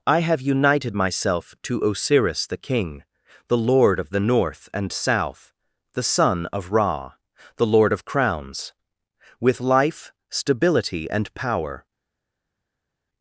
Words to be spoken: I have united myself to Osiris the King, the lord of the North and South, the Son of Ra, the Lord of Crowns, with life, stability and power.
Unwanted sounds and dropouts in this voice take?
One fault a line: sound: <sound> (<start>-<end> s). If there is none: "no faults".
no faults